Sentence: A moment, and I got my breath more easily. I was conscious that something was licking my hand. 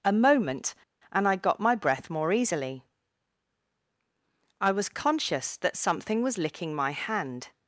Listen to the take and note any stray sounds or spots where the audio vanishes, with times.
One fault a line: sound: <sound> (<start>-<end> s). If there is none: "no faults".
no faults